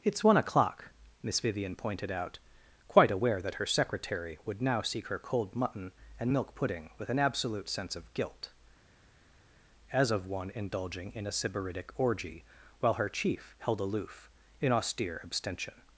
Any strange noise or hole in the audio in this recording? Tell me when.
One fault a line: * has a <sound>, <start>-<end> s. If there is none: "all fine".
all fine